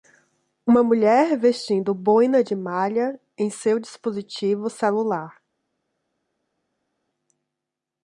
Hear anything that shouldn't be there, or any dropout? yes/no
no